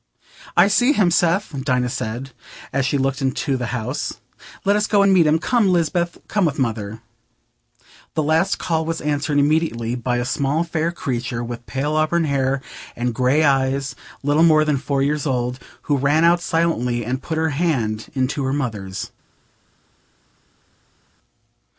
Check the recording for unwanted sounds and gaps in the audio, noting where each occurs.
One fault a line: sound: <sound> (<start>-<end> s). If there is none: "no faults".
no faults